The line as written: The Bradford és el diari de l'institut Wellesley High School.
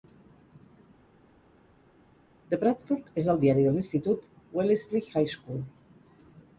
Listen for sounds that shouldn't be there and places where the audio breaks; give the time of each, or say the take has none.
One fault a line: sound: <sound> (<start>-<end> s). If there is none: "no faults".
no faults